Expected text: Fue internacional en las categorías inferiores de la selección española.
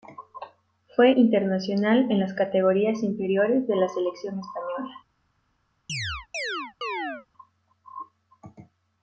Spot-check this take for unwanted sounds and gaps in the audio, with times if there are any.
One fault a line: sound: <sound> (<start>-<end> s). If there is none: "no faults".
sound: chirp (5.9-7.3 s)